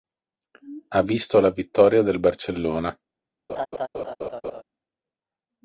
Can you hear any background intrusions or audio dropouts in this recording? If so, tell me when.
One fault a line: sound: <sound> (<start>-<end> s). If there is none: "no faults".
sound: laugh (3.5-4.6 s)